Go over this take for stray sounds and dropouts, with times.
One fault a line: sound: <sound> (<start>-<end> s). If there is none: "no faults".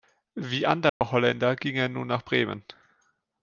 sound: dropout (0.9-1.0 s)